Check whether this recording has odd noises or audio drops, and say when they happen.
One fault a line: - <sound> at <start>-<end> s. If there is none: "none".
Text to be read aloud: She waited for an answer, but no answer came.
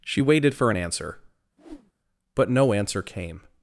- whoosh at 1.6-1.9 s